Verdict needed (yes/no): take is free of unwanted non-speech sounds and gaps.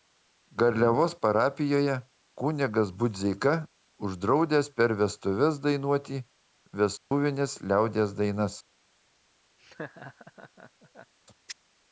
no